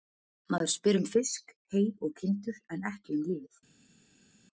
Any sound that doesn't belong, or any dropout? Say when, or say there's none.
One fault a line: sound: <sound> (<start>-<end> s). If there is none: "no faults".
no faults